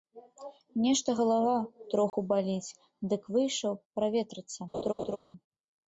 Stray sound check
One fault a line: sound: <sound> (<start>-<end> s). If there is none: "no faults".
sound: dropout (2.1-2.1 s)
sound: laugh (4.7-5.2 s)